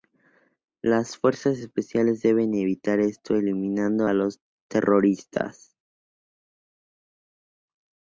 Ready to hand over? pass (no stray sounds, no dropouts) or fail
pass